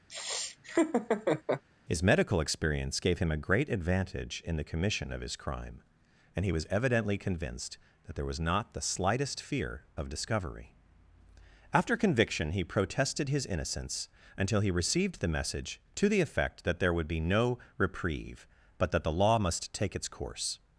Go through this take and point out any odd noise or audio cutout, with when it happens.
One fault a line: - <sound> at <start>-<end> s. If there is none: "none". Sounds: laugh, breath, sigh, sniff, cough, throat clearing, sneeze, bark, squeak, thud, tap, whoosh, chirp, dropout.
- laugh at 0.1-1.6 s